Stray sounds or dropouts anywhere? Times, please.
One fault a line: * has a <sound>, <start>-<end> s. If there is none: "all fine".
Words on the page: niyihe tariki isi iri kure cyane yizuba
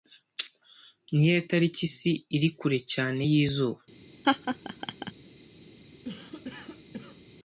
* has a laugh, 4.2-5.1 s
* has a cough, 6.0-7.2 s